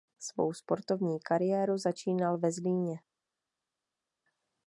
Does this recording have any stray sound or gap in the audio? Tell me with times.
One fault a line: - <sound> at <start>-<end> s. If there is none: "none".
none